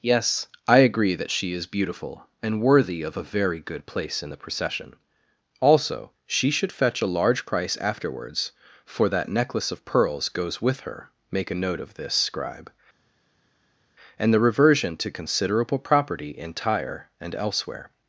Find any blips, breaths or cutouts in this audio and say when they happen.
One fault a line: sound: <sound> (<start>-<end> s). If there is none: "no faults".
no faults